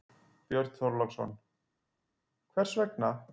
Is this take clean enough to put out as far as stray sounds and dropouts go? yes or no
yes